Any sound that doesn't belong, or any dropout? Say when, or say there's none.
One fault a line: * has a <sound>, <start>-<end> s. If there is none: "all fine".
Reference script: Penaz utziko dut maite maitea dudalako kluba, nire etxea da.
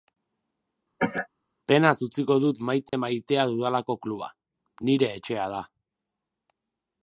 * has a cough, 1.0-1.3 s
* has a dropout, 2.9-2.9 s